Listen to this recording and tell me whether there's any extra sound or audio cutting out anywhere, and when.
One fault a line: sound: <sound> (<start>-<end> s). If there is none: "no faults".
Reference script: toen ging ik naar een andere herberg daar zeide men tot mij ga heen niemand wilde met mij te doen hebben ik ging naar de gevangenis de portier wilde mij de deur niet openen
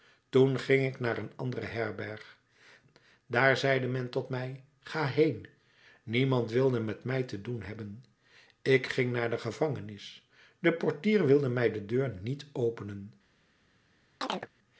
sound: chirp (14.2-14.5 s)